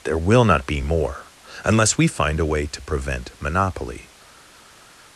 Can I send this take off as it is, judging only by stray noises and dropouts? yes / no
yes